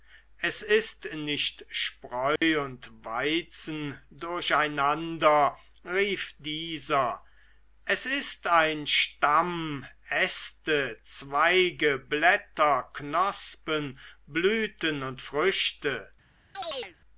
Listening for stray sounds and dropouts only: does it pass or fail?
fail